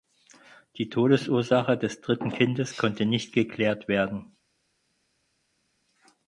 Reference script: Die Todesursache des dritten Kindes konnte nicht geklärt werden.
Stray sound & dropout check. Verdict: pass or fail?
pass